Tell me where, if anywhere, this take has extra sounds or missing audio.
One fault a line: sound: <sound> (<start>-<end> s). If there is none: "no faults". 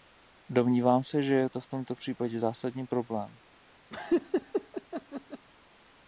sound: laugh (3.9-5.5 s)